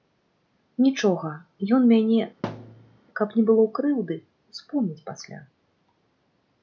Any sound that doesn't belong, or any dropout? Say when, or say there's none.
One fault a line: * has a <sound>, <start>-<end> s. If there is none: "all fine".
* has a thud, 2.4-3.0 s